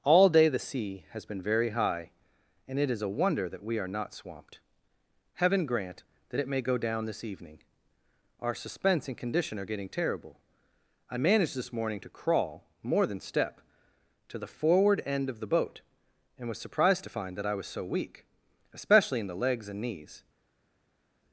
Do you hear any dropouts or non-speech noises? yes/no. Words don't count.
no